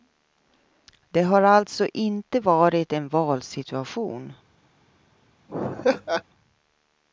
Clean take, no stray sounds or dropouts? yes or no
no